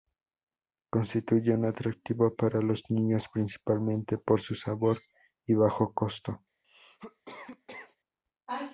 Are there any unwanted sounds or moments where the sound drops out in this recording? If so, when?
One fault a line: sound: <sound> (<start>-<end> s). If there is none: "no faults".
sound: cough (6.6-8.0 s)